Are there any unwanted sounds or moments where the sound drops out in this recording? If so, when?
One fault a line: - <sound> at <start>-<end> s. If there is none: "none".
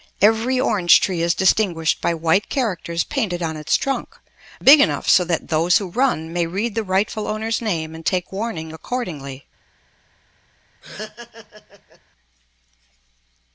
- laugh at 10.8-12.0 s